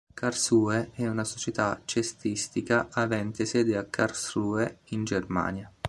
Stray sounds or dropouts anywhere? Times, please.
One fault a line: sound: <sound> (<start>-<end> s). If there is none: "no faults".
no faults